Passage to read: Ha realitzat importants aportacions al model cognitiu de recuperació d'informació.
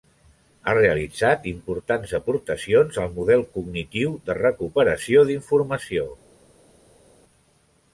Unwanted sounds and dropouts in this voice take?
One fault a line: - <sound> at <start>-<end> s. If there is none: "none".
none